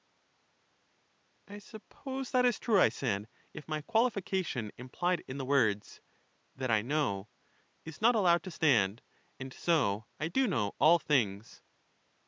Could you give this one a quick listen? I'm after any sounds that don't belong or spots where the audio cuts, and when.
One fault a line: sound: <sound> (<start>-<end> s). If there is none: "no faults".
no faults